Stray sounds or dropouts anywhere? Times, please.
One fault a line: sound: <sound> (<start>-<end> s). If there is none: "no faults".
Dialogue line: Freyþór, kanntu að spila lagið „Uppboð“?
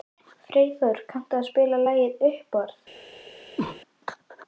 sound: cough (3.6-3.8 s)